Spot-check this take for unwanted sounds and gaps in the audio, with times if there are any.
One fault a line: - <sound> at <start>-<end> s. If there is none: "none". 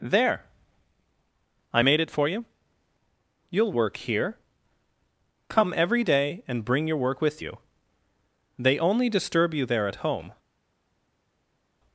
none